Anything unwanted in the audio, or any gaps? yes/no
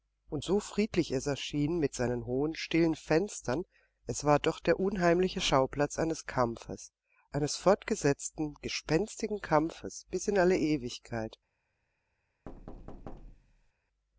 yes